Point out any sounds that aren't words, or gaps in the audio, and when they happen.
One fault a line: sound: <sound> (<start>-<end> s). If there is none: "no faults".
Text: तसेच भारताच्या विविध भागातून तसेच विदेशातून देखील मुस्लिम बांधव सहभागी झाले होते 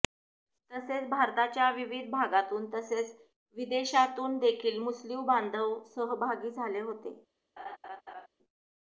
sound: laugh (7.6-8.3 s)